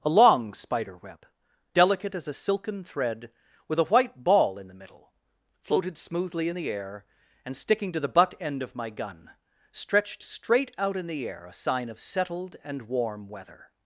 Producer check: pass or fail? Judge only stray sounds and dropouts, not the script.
pass